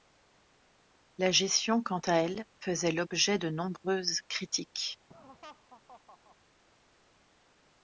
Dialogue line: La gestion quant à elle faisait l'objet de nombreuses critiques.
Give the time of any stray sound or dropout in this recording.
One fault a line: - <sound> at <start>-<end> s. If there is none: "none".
- laugh at 5.1-6.4 s